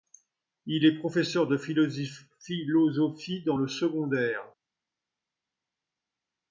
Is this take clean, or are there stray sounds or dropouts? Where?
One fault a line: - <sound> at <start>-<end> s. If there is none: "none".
none